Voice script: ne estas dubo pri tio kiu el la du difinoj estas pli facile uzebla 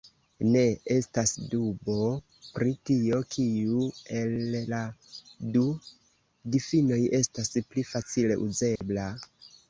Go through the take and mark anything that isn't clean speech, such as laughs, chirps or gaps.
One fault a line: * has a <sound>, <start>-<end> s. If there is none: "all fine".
* has a dropout, 8.8-8.8 s